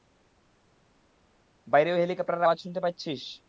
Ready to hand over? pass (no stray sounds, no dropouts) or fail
pass